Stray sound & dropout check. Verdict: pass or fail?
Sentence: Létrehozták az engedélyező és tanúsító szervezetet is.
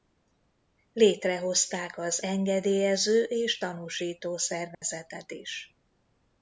fail